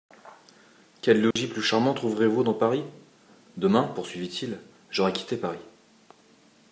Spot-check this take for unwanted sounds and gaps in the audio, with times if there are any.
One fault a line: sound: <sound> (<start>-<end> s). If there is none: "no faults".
sound: dropout (1.3-1.4 s)